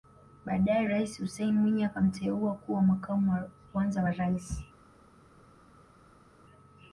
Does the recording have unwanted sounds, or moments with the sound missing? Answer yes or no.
no